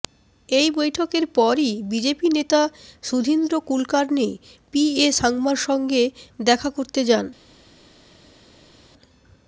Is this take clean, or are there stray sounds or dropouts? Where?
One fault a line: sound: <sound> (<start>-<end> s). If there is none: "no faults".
no faults